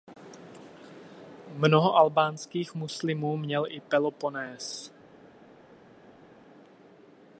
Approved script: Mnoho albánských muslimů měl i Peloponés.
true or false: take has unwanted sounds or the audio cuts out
false